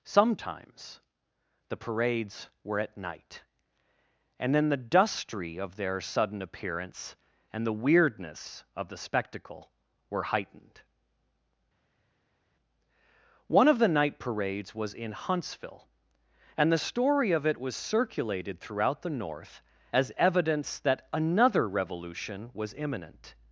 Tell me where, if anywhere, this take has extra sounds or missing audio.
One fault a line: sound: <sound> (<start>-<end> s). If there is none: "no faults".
no faults